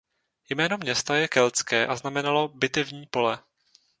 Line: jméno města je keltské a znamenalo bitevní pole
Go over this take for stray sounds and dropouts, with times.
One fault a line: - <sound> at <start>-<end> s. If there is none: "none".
none